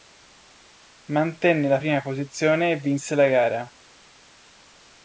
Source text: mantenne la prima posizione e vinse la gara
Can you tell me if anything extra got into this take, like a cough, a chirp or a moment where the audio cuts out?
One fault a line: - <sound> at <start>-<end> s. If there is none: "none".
none